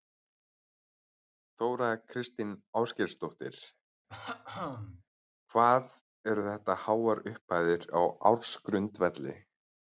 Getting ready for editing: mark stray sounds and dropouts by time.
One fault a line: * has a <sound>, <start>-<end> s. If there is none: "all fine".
* has a throat clearing, 4.1-5.0 s